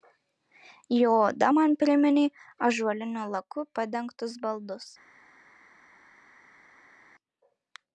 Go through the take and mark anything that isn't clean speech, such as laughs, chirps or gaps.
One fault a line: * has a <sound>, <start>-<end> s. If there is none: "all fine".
all fine